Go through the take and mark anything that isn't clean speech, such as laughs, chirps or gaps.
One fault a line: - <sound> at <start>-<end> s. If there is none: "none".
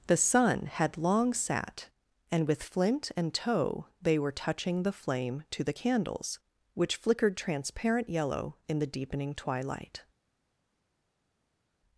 none